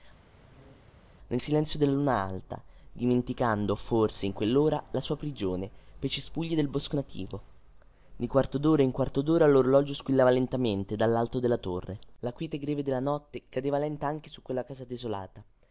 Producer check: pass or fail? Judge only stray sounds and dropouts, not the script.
fail